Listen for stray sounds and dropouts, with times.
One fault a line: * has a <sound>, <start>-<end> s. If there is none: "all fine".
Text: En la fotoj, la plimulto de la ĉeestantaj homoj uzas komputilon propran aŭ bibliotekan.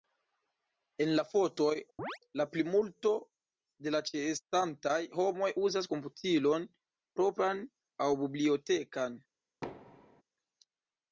* has a chirp, 2.0-2.2 s
* has a thud, 9.6-10.2 s